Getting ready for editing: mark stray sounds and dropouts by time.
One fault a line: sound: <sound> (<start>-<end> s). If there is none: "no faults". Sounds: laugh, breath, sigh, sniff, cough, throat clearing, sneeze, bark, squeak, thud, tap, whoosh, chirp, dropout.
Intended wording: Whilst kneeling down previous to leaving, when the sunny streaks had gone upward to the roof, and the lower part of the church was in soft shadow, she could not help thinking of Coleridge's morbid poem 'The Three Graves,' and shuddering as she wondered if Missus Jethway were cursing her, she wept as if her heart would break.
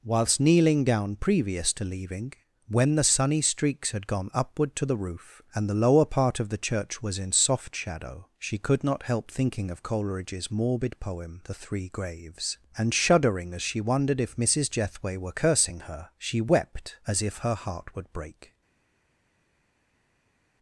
no faults